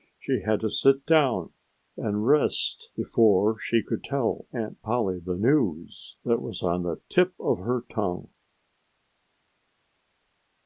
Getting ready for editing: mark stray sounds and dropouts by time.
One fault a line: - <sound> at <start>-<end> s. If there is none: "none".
none